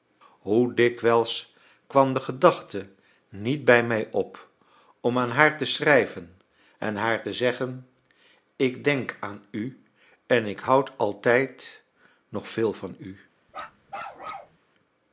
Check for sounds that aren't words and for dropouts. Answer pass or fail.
fail